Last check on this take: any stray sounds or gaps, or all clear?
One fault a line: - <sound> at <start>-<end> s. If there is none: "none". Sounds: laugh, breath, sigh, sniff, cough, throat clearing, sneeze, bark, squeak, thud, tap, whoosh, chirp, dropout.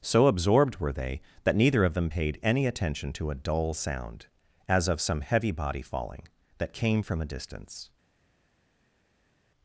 none